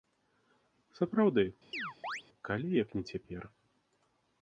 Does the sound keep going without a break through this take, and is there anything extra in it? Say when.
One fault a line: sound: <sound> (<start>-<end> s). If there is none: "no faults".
sound: chirp (1.7-2.2 s)